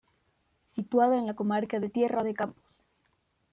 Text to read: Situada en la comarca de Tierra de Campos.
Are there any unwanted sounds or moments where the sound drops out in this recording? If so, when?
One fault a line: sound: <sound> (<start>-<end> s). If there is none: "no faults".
no faults